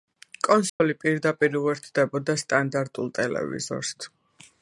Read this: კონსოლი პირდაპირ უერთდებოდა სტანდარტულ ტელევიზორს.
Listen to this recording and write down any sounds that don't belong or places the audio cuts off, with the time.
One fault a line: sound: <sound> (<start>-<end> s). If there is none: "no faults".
sound: dropout (0.7-0.8 s)